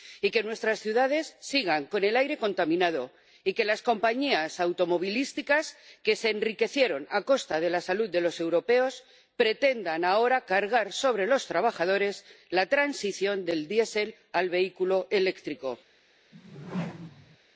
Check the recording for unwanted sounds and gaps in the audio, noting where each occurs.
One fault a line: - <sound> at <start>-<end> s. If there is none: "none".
- whoosh at 16.3-17.4 s